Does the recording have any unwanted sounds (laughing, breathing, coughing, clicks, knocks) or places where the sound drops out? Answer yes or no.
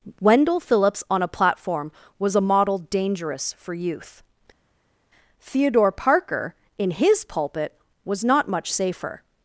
no